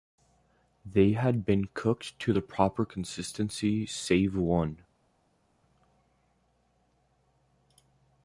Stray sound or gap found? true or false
false